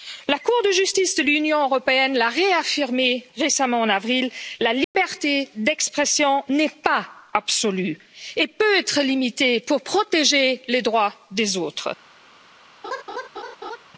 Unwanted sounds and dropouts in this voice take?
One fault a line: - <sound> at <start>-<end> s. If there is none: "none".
- dropout at 4.8-4.9 s
- laugh at 12.8-13.8 s